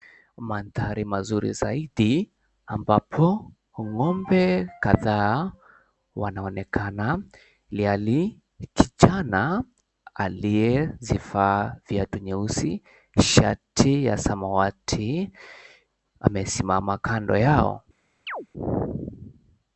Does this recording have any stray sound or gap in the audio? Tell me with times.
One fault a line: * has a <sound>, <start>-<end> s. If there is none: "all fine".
* has a chirp, 18.3-18.5 s